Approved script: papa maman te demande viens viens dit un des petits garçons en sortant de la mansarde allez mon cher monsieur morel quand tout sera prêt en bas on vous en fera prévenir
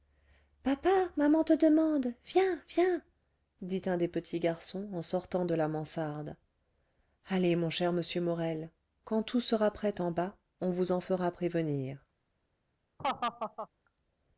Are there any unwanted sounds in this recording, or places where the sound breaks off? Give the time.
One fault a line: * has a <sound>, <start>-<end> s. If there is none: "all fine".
* has a laugh, 13.0-13.7 s